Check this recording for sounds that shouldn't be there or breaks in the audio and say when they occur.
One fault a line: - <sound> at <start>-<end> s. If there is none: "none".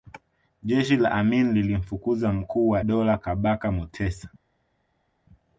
none